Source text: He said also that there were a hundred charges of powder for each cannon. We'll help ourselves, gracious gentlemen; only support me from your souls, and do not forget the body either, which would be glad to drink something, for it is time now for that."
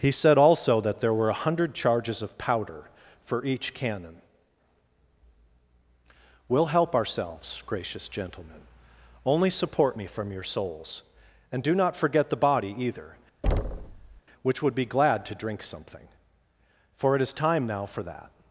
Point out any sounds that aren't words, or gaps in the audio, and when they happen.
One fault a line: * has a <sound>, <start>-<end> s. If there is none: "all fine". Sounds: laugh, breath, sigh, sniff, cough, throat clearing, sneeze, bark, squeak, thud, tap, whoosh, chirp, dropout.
* has a thud, 13.4-14.2 s